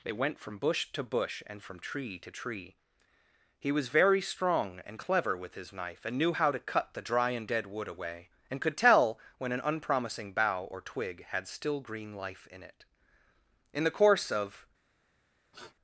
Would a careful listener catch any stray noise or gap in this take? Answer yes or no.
yes